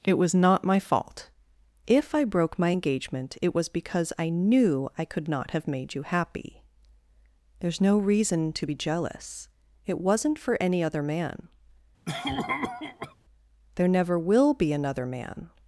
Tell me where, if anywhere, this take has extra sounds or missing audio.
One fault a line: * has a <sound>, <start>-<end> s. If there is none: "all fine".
* has a cough, 12.1-13.2 s